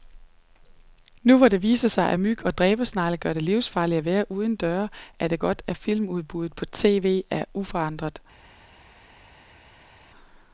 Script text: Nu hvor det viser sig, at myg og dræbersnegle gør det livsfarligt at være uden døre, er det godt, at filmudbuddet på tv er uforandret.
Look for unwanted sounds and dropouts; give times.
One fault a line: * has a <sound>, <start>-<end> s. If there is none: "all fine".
all fine